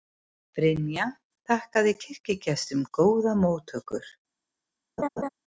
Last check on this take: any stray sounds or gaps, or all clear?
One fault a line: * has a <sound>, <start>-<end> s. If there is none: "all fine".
* has a laugh, 5.0-5.3 s